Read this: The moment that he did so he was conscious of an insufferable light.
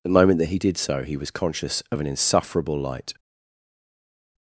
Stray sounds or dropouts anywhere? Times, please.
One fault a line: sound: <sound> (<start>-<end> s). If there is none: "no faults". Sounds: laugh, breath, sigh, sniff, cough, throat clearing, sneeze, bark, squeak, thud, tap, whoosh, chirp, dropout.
no faults